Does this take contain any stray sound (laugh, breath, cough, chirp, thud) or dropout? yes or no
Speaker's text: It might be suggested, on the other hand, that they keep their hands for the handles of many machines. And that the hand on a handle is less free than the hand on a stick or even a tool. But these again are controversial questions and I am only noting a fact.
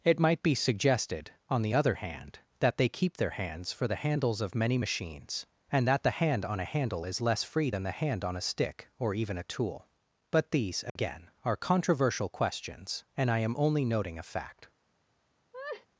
yes